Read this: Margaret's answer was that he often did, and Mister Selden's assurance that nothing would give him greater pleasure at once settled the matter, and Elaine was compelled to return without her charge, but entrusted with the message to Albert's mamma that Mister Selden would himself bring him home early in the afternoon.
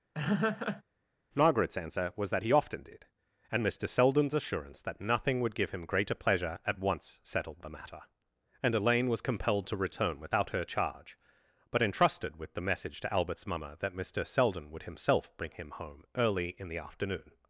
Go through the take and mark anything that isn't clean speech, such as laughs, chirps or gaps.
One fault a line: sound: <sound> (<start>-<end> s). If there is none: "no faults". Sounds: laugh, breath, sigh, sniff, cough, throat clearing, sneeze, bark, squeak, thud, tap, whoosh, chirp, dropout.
sound: laugh (0.1-0.8 s)